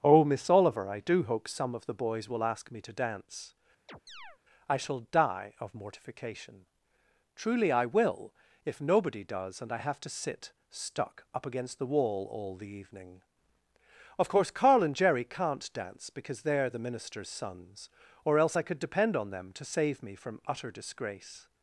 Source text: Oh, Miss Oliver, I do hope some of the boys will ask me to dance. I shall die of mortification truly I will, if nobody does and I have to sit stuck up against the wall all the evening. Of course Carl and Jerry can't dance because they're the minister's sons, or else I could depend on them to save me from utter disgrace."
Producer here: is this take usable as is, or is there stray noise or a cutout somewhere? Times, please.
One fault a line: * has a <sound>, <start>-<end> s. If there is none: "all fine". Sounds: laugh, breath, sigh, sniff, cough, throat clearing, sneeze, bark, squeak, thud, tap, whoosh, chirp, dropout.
* has a chirp, 3.9-4.4 s